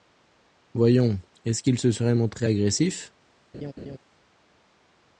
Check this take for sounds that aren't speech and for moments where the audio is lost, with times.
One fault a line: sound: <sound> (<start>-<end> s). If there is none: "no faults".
sound: laugh (3.5-4.0 s)